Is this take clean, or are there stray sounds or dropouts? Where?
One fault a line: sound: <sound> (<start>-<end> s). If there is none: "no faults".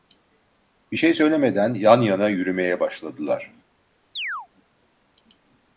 sound: chirp (4.2-4.5 s)